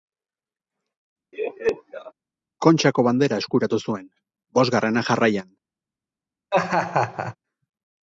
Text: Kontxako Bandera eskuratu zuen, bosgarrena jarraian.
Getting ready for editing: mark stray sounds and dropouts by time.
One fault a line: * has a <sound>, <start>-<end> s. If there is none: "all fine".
* has a laugh, 1.3-2.1 s
* has a laugh, 6.5-7.4 s